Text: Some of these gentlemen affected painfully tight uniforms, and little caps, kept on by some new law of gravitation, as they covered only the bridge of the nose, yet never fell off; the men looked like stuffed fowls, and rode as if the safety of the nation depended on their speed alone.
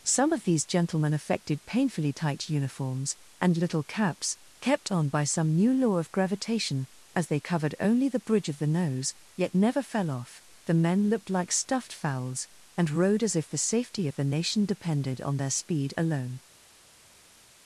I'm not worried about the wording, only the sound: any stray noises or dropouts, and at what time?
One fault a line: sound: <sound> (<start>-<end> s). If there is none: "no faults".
no faults